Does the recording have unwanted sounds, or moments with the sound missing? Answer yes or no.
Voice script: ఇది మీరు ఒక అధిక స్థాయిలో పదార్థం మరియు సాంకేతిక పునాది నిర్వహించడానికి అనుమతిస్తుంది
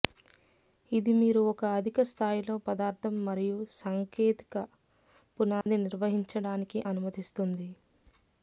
yes